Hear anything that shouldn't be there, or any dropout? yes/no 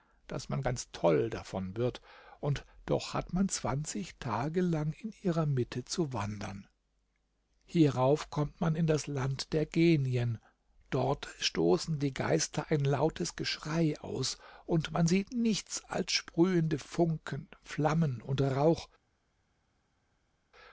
no